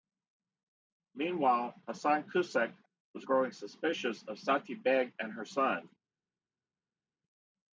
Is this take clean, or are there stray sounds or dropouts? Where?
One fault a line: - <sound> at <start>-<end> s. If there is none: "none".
none